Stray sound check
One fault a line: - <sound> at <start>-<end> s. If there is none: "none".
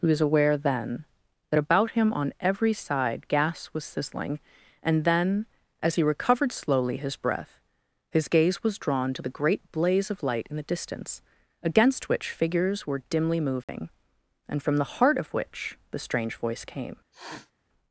- dropout at 13.6-13.7 s
- sniff at 17.1-17.5 s